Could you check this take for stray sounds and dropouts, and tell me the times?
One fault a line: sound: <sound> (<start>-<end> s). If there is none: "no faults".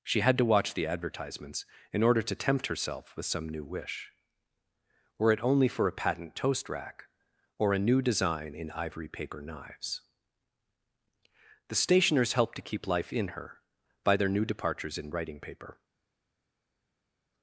no faults